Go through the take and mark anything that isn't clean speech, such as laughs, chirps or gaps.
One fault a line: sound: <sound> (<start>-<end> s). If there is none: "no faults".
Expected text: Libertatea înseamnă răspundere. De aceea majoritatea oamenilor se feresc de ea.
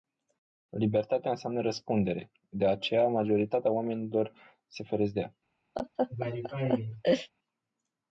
sound: laugh (5.8-7.3 s)